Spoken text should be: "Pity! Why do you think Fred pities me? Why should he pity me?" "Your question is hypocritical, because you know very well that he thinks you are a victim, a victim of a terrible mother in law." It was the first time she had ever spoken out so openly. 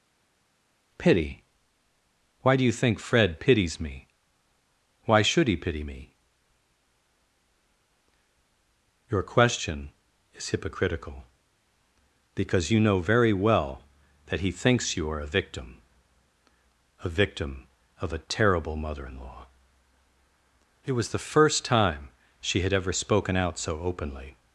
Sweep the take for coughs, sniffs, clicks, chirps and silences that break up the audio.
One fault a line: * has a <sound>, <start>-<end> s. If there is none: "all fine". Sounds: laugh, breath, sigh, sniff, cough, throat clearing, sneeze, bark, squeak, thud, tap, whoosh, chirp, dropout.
all fine